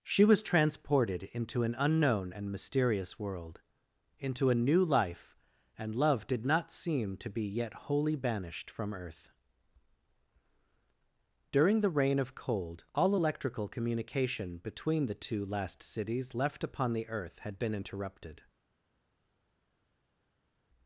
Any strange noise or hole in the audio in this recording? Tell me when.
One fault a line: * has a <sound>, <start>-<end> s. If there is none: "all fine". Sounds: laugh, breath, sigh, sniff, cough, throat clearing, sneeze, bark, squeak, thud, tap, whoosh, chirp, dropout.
all fine